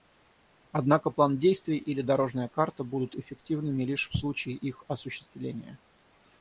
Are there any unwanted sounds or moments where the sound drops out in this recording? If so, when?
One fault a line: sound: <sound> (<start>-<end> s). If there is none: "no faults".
no faults